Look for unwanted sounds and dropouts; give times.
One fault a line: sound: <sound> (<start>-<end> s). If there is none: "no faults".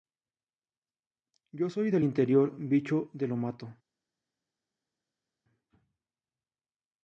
no faults